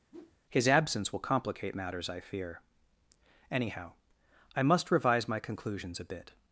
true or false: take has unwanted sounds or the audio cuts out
true